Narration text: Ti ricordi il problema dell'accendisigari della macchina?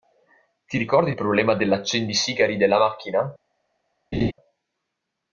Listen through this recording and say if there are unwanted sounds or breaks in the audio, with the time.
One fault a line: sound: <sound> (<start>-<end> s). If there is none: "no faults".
sound: laugh (4.1-4.3 s)